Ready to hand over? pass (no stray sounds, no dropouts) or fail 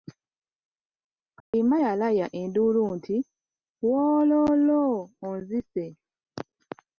fail